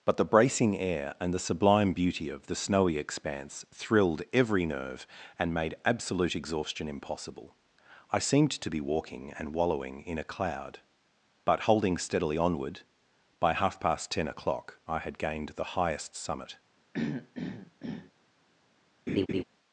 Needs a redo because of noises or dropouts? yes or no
yes